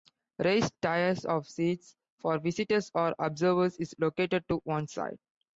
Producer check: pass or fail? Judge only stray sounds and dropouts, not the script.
pass